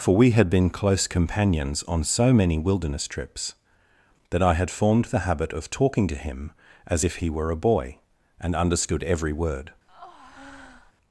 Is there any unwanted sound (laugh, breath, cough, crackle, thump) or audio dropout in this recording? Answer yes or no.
yes